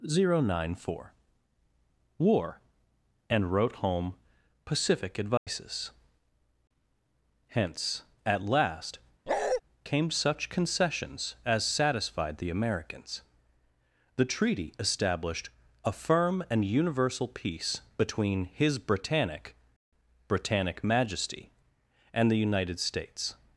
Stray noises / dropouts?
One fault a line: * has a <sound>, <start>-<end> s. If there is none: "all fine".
* has a dropout, 5.4-5.5 s
* has a bark, 9.3-9.6 s